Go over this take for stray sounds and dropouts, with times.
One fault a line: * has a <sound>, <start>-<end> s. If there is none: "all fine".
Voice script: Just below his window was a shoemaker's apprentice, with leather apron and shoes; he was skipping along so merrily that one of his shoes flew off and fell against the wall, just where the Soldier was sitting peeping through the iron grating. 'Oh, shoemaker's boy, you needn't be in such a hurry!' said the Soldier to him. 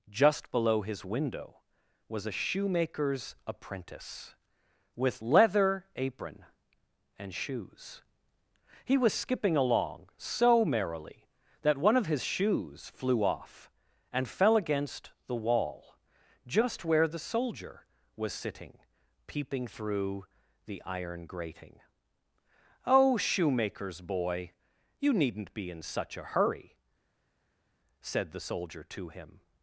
all fine